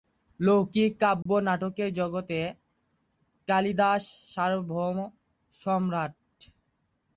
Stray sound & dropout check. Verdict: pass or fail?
fail